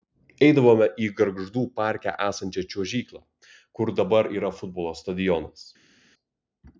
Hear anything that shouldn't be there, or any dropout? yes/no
no